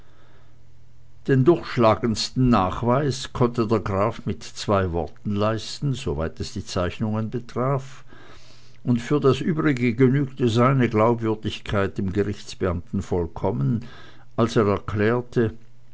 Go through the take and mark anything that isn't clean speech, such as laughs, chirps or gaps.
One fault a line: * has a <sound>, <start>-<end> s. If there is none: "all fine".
all fine